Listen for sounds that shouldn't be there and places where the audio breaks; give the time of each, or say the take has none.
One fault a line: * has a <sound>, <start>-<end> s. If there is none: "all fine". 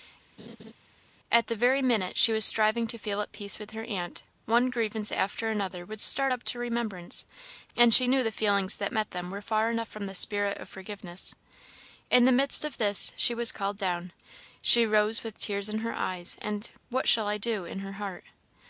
* has a laugh, 0.4-0.7 s